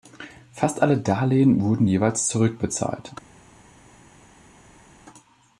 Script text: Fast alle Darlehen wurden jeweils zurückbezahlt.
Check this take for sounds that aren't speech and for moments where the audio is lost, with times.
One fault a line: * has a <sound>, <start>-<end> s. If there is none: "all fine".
all fine